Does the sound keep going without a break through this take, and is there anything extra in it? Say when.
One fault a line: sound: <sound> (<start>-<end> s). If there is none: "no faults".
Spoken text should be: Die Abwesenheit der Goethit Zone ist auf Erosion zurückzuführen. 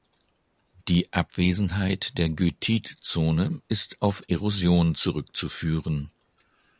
no faults